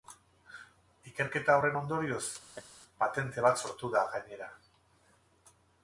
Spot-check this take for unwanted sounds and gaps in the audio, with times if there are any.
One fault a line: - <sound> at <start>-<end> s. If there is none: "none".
- laugh at 2.5-2.7 s